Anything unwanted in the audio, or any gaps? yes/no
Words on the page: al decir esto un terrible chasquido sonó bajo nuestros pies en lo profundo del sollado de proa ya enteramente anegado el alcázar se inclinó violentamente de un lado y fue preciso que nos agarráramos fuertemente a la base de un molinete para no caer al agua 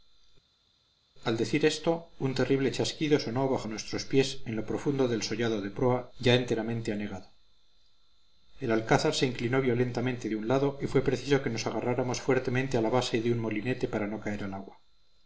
no